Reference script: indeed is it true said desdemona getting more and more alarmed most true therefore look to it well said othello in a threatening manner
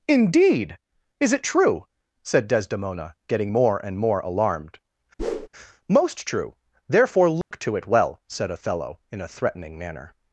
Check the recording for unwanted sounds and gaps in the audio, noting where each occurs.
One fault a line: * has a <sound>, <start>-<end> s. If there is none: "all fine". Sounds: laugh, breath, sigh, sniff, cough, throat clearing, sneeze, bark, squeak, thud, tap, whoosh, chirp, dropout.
* has a whoosh, 5.2-5.5 s
* has a dropout, 7.4-7.5 s